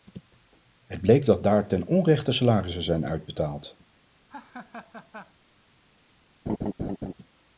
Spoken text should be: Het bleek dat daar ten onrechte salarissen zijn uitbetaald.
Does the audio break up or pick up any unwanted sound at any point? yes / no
yes